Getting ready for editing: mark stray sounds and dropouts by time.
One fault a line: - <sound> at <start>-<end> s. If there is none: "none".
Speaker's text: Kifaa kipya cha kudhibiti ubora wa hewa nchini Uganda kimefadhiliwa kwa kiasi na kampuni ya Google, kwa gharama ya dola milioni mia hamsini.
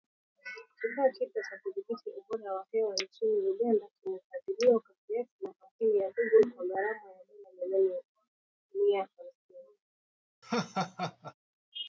- laugh at 10.4-11.3 s